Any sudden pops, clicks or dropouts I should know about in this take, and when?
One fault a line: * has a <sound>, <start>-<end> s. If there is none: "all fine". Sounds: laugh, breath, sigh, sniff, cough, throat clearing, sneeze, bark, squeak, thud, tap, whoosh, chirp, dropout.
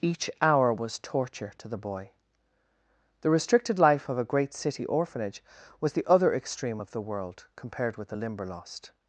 all fine